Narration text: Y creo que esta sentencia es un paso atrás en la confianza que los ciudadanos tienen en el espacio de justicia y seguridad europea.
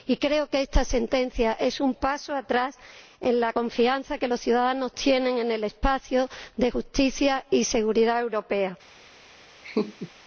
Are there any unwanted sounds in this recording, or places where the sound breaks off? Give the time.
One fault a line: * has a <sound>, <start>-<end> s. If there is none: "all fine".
* has a laugh, 9.6-10.1 s